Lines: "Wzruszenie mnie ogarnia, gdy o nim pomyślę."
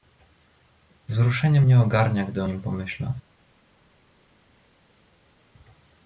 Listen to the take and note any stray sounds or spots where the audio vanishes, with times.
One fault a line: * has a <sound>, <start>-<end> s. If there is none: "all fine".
all fine